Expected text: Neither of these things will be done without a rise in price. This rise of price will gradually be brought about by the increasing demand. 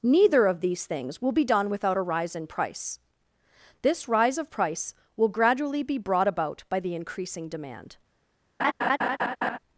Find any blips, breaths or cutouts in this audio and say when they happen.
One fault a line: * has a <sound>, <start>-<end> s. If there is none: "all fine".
* has a laugh, 8.6-9.6 s